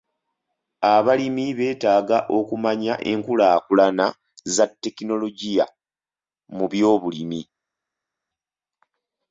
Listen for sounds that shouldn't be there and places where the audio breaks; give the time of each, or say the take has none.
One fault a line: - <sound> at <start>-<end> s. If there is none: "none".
none